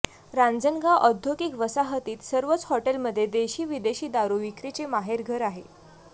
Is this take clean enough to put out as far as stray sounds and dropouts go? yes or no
yes